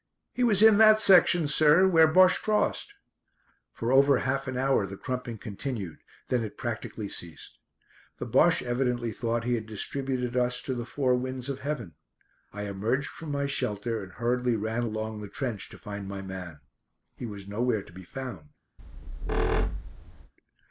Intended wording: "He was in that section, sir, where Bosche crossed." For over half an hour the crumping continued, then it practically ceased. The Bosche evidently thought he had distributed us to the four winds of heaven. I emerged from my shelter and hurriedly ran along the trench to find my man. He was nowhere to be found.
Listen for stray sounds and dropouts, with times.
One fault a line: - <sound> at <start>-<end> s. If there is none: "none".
- squeak at 18.8-20.3 s